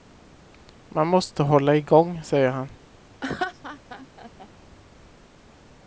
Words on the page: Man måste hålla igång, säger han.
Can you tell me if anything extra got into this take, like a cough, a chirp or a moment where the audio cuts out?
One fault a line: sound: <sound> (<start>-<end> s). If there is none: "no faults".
sound: laugh (3.2-4.5 s)